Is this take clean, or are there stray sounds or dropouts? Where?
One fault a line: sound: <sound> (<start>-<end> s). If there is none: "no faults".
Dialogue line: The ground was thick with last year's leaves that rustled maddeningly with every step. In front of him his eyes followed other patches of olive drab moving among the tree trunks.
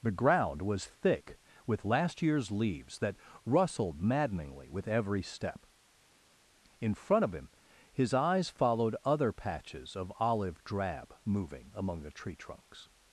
no faults